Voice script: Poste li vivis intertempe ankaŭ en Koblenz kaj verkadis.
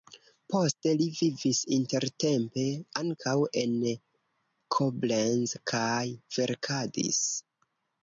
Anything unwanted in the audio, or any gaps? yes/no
no